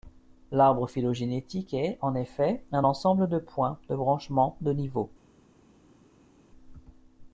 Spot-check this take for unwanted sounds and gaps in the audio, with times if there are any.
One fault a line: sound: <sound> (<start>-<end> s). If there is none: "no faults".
no faults